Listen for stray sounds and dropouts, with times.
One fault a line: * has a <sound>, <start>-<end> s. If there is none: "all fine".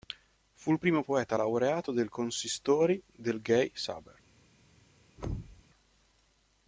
* has a thud, 5.2-5.6 s